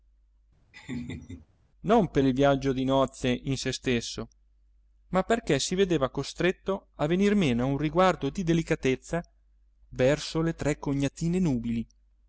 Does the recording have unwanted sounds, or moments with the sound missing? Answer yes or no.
yes